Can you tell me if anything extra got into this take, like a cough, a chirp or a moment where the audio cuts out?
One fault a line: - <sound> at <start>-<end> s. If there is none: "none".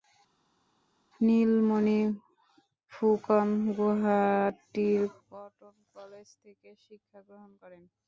none